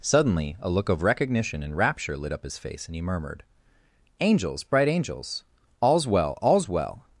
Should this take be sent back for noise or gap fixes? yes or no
no